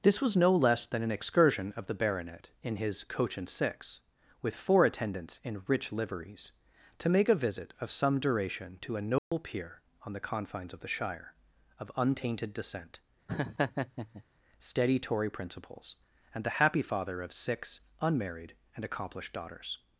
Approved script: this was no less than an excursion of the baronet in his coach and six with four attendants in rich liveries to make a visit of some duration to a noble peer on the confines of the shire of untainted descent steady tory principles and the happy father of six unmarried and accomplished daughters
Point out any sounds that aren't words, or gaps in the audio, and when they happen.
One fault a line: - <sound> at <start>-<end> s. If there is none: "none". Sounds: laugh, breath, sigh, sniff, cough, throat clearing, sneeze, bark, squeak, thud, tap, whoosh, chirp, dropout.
- dropout at 9.2-9.3 s
- laugh at 13.3-14.2 s